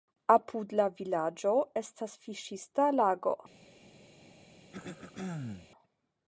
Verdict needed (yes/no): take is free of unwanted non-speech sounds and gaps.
no